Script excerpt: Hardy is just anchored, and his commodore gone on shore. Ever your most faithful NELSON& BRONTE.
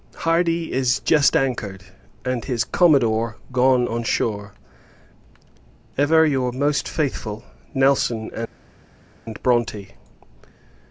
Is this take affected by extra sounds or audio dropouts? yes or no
no